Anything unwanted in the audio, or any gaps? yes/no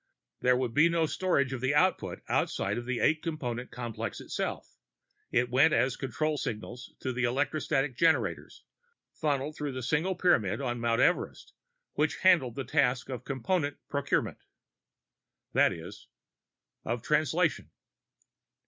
no